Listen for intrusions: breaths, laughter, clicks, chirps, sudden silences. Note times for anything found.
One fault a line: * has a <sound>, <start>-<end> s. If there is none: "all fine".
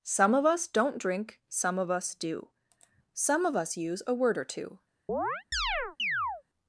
* has a chirp, 5.1-6.4 s